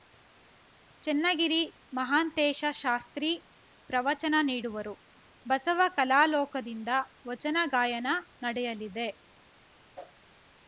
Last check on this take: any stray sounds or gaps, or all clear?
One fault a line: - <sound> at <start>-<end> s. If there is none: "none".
- whoosh at 10.0-10.2 s